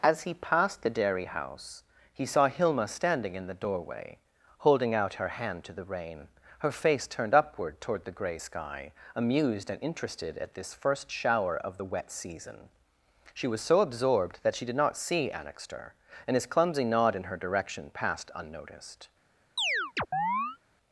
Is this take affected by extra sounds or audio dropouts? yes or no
yes